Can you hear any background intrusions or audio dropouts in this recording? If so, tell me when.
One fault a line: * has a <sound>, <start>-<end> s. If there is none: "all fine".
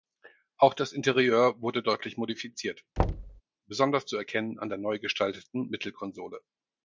* has a thud, 3.0-3.4 s